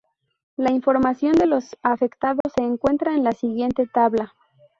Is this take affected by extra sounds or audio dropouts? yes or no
yes